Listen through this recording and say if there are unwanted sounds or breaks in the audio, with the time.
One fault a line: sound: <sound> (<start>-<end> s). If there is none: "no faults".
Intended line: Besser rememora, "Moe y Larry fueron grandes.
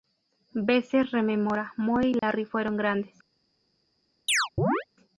sound: dropout (2.2-2.2 s)
sound: chirp (4.3-4.8 s)